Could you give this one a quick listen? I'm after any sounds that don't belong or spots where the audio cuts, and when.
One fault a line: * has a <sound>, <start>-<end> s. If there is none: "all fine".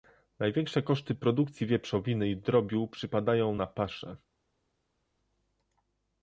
all fine